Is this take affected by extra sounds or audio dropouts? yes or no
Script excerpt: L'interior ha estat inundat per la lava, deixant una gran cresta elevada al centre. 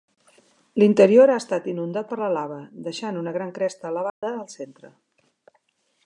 yes